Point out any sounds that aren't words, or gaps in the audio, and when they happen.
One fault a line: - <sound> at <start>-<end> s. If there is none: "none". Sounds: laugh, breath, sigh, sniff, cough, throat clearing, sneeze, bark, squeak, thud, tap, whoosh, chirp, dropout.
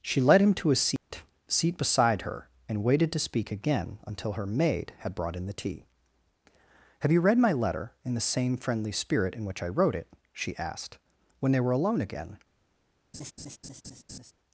- dropout at 1.0-1.1 s
- laugh at 13.1-14.3 s